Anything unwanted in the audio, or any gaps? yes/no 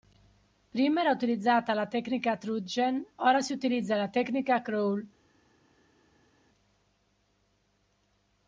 no